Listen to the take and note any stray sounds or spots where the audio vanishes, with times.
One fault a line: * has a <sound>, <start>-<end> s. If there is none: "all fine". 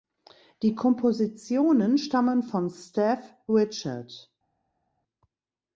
all fine